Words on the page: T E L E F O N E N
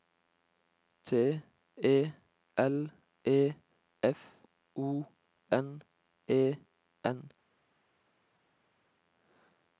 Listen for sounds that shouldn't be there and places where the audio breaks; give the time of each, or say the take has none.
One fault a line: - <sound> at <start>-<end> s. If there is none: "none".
none